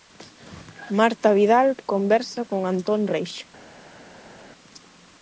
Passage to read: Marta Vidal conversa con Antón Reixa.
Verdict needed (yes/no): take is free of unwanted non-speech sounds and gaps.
yes